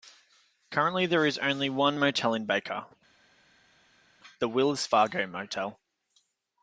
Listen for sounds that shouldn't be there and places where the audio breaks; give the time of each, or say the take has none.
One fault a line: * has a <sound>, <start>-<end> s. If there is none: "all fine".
all fine